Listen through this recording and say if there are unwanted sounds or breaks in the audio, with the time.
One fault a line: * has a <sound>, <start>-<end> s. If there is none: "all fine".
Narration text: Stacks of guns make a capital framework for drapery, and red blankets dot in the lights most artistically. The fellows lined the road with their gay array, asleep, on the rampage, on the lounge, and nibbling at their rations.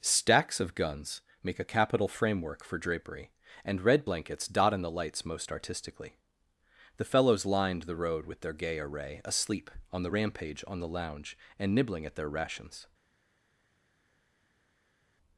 all fine